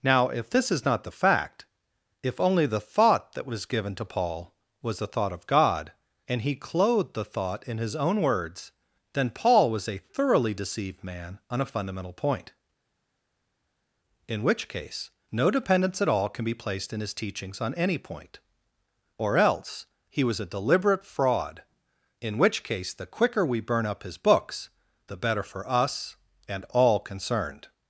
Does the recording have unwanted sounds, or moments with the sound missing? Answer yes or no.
no